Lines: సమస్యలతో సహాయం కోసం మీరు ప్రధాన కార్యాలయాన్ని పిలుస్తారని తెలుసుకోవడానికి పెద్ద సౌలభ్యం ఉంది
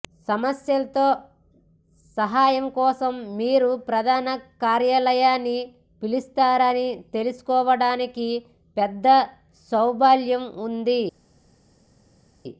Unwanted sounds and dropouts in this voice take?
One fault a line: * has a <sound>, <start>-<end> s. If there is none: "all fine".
all fine